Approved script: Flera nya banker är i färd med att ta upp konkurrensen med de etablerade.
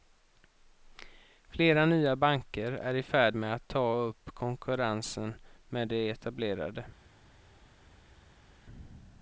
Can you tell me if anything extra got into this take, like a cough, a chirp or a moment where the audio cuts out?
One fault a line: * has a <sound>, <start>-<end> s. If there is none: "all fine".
all fine